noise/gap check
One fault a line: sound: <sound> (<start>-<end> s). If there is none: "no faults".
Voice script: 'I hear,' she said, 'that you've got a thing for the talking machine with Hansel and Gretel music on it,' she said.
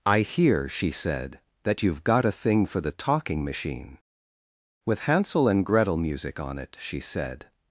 no faults